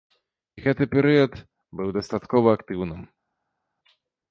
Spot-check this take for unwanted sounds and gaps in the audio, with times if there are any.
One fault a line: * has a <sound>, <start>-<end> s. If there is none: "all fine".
all fine